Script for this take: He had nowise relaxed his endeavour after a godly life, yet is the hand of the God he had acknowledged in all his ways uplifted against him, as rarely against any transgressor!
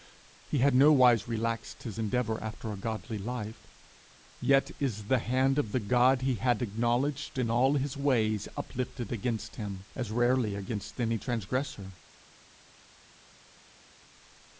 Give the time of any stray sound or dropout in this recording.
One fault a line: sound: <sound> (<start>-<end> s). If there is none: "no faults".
no faults